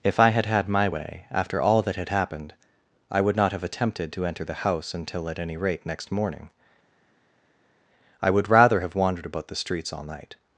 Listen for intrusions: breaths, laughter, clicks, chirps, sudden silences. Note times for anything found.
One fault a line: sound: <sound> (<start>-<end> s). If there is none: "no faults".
no faults